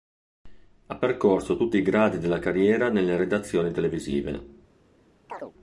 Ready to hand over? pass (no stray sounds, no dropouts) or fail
fail